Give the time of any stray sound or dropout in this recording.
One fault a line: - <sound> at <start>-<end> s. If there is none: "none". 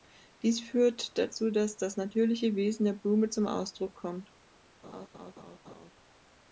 - laugh at 4.8-5.9 s